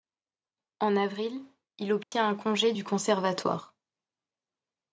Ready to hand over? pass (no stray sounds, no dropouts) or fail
fail